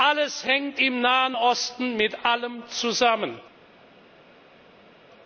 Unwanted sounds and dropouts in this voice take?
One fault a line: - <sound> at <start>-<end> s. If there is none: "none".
none